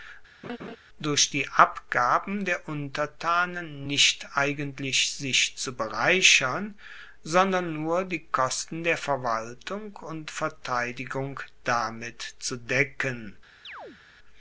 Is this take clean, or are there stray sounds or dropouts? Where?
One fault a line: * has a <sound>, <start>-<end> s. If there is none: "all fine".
* has a laugh, 0.4-0.8 s
* has a chirp, 13.6-14.0 s